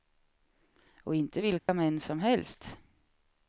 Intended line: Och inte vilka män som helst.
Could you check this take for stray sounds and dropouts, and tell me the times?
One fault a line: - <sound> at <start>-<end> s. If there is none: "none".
- dropout at 1.6-1.7 s